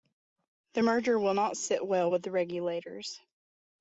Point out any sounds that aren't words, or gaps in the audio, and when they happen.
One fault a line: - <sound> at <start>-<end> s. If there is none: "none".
none